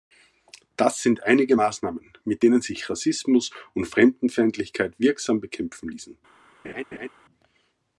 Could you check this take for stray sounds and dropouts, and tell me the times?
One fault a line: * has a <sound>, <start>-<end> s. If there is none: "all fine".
* has a laugh, 6.6-7.1 s